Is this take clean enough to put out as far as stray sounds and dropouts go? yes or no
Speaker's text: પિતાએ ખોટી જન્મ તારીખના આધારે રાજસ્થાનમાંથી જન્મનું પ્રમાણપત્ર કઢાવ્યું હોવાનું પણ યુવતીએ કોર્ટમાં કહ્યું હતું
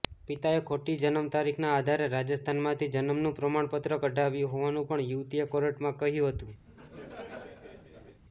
no